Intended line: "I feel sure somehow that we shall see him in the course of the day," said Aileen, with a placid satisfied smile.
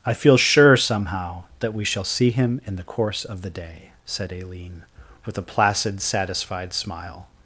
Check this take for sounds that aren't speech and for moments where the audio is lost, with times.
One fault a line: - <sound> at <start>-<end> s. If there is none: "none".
none